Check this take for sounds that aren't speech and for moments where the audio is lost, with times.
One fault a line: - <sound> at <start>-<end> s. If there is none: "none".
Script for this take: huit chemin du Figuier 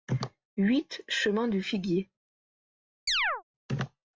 - chirp at 3.1-3.4 s